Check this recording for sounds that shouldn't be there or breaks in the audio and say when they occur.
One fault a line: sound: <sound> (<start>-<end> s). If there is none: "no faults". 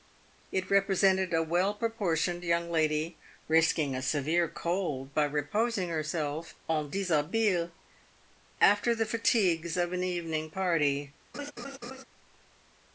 sound: laugh (11.3-12.0 s)